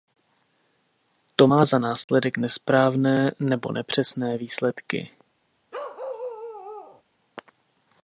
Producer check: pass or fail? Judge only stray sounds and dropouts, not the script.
fail